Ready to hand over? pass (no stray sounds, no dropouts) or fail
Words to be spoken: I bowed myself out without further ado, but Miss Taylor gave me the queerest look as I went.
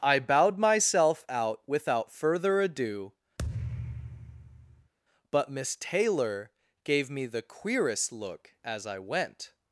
fail